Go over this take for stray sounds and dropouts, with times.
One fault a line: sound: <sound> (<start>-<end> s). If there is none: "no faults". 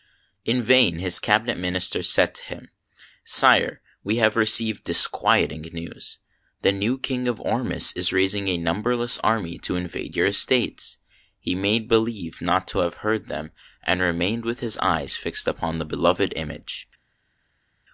no faults